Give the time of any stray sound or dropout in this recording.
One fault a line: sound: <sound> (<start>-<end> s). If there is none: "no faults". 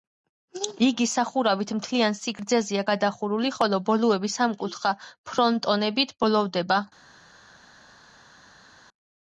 no faults